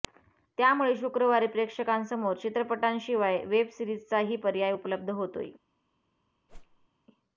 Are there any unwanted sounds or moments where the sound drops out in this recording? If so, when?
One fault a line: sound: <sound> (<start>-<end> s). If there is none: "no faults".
sound: whoosh (6.5-6.9 s)